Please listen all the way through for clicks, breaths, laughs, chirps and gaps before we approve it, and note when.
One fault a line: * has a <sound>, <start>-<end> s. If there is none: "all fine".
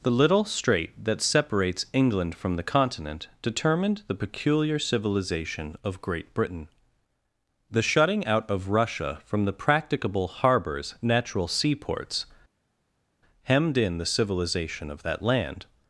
all fine